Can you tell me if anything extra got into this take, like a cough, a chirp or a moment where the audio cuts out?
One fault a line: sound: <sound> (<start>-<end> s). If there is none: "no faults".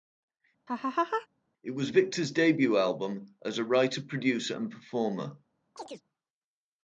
sound: laugh (0.7-1.3 s)
sound: chirp (5.8-6.0 s)